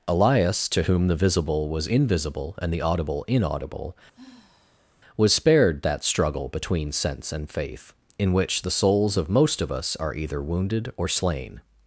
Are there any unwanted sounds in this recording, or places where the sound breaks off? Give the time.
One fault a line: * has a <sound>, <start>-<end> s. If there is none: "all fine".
* has a sigh, 4.1-5.0 s